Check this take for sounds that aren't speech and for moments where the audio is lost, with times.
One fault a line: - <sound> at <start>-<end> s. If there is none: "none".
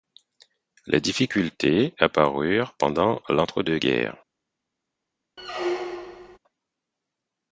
- squeak at 5.4-6.4 s